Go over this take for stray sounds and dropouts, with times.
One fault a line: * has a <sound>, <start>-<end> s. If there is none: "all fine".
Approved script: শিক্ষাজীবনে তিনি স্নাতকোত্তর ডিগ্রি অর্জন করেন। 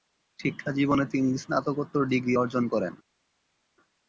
all fine